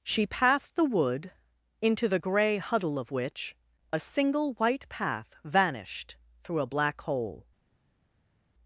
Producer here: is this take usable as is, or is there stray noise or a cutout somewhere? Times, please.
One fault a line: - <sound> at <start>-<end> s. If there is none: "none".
none